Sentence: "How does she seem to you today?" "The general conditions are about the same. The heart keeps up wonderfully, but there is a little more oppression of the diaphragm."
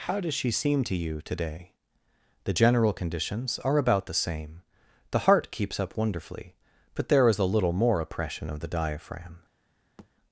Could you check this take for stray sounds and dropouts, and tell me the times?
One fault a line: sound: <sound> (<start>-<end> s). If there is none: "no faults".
sound: thud (10.0-10.1 s)